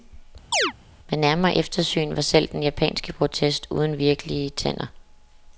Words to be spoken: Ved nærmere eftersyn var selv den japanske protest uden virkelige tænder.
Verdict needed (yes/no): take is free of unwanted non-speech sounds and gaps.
no